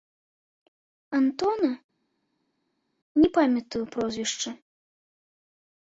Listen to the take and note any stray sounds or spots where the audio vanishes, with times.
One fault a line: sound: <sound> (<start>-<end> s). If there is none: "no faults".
no faults